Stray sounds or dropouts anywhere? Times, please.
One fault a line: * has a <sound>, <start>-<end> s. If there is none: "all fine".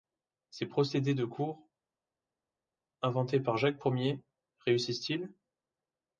all fine